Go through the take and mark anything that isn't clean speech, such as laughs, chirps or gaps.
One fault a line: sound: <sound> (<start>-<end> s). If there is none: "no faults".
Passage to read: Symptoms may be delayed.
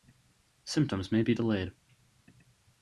no faults